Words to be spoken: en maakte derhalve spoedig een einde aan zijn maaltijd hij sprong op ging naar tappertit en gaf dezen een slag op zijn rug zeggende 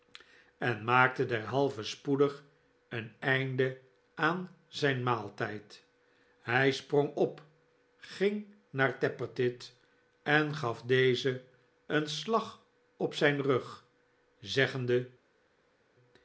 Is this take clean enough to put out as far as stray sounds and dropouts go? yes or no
yes